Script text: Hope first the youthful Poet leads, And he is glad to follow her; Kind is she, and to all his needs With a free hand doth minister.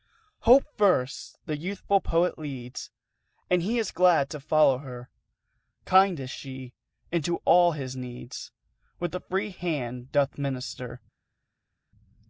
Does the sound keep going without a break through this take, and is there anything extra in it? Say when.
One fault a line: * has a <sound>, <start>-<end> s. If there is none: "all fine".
all fine